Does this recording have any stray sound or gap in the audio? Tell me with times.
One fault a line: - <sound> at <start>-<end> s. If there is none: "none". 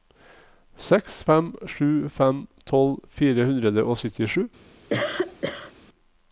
- cough at 4.9-5.7 s